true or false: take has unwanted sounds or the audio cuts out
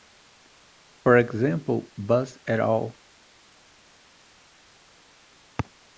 false